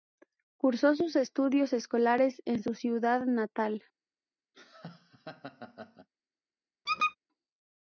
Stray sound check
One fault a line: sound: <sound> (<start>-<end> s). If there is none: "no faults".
sound: laugh (4.5-6.1 s)
sound: squeak (6.9-7.2 s)